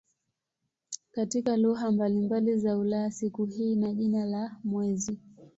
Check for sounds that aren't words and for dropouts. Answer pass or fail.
pass